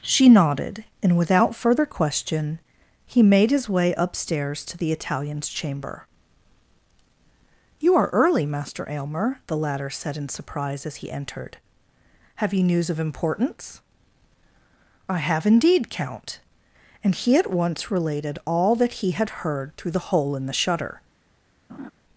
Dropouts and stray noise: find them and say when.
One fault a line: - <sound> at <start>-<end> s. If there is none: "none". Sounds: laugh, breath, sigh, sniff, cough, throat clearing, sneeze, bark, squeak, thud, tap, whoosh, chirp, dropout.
- laugh at 21.7-21.9 s